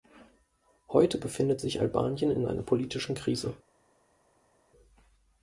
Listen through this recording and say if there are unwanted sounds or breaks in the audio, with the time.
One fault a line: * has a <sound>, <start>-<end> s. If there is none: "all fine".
all fine